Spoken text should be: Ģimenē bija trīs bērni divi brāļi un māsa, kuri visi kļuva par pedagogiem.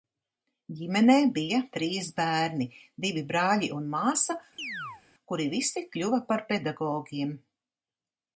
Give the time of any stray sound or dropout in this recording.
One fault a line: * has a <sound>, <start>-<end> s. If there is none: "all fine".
* has a chirp, 4.6-5.0 s